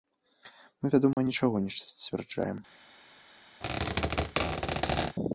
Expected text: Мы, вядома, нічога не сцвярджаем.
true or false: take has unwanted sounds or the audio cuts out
true